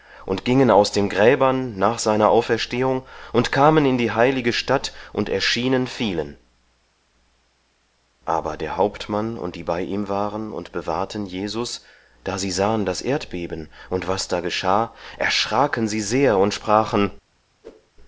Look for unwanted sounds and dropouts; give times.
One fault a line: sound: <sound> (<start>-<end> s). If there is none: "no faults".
sound: whoosh (17.6-17.9 s)